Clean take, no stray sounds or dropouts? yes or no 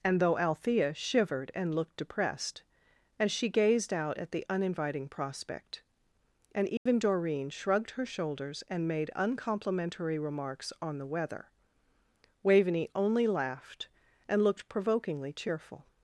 no